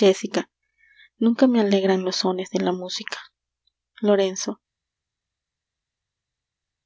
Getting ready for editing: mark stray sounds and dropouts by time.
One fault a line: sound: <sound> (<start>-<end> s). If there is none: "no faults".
no faults